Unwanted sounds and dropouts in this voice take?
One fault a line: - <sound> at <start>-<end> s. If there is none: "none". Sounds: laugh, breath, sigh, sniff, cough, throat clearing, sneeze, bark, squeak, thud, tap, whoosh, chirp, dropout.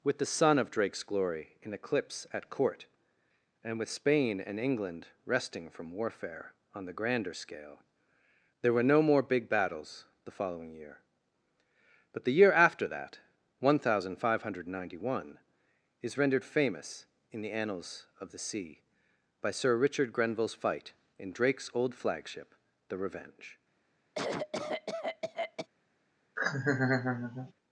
- cough at 24.1-25.7 s
- laugh at 26.4-27.5 s